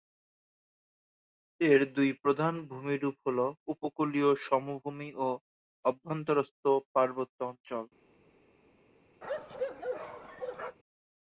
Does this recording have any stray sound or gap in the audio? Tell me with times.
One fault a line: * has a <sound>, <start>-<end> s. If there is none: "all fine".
* has a bark, 9.2-10.8 s